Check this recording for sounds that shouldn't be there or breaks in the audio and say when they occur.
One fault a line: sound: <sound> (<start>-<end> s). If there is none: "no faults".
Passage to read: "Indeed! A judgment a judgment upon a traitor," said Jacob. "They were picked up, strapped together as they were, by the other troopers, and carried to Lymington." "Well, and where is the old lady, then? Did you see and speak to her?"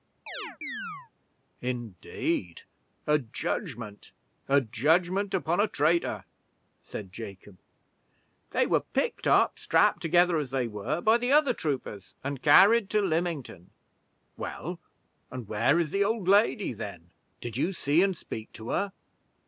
sound: chirp (0.3-1.1 s)